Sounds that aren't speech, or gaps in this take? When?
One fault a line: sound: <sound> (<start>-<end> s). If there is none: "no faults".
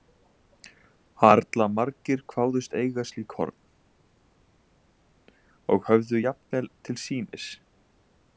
no faults